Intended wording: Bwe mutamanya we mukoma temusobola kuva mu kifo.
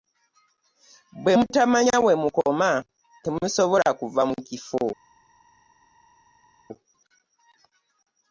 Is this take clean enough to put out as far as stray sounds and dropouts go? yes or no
yes